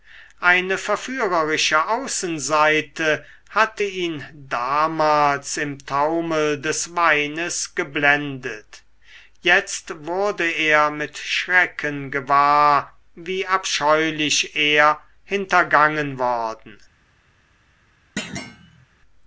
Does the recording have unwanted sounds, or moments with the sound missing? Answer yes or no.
yes